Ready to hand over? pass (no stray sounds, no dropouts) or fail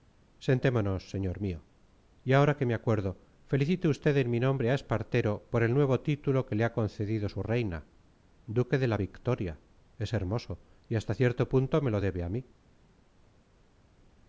pass